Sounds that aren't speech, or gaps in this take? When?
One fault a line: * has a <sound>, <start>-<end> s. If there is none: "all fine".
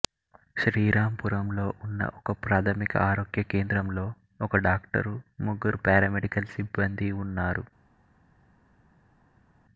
all fine